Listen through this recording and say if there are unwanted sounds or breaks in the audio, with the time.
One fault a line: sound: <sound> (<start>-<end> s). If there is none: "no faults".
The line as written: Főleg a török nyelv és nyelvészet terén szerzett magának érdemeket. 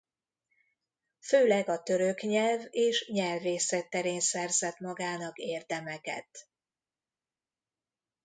no faults